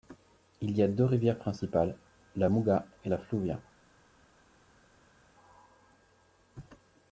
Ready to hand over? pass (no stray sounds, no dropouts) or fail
pass